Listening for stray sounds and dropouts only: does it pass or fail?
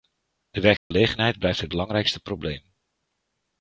fail